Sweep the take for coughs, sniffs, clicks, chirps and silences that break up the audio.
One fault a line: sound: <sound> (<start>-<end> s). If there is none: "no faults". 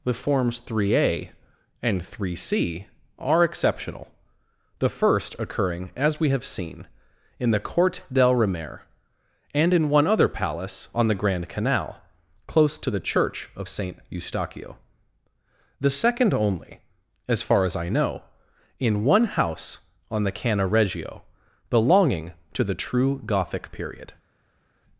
no faults